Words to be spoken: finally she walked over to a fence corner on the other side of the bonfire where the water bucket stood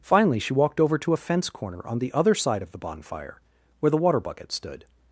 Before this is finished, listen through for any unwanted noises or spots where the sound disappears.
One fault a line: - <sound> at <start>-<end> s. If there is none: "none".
none